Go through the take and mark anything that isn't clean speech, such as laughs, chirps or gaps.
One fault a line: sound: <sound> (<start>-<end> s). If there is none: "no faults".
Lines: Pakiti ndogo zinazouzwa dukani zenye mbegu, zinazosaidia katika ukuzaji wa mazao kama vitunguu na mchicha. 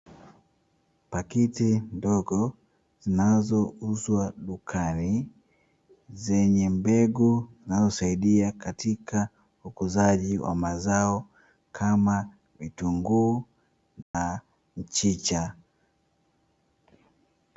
sound: dropout (14.0-14.1 s)